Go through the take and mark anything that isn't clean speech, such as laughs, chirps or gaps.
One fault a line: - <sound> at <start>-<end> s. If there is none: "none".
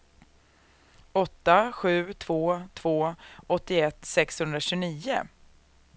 none